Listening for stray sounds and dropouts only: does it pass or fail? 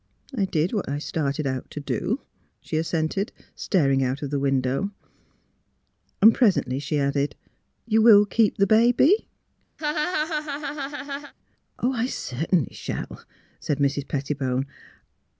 fail